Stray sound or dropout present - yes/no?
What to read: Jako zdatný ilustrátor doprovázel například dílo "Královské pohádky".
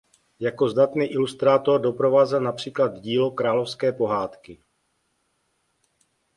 no